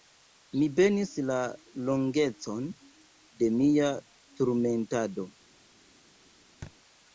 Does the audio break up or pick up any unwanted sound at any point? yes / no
yes